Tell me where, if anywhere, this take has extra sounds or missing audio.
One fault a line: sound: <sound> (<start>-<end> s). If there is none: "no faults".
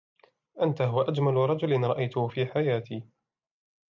no faults